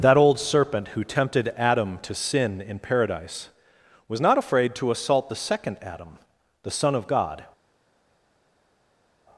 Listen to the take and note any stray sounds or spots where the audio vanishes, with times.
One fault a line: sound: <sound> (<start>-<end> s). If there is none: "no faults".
no faults